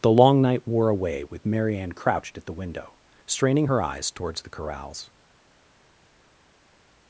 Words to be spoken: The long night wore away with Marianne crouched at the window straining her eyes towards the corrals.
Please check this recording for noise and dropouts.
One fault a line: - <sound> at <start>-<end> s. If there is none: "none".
none